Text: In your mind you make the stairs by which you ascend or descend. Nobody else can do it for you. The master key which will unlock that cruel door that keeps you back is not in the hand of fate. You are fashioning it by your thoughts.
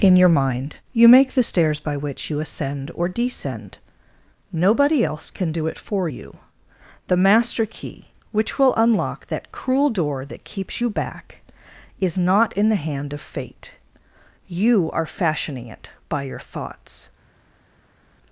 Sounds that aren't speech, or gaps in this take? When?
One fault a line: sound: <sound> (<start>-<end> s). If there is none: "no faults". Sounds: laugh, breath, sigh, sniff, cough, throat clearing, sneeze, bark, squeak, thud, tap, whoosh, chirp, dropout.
no faults